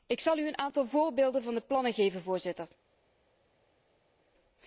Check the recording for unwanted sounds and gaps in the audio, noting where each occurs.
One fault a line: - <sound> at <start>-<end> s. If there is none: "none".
none